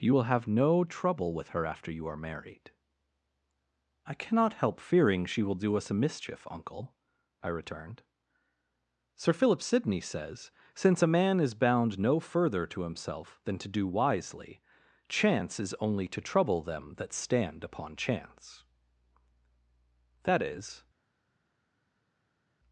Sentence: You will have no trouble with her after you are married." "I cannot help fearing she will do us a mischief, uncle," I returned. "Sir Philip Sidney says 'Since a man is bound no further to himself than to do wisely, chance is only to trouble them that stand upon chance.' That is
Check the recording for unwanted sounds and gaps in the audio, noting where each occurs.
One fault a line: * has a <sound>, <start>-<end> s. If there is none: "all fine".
all fine